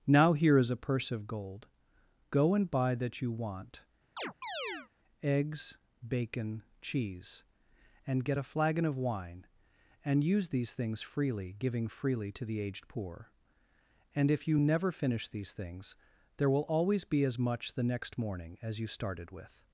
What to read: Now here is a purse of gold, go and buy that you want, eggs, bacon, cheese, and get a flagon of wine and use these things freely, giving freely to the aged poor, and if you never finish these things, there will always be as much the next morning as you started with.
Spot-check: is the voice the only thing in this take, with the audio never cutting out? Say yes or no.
no